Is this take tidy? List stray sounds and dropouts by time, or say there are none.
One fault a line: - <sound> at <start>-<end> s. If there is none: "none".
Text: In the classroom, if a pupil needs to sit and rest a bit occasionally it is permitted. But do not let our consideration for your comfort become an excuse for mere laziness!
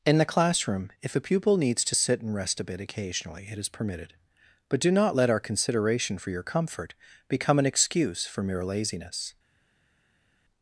none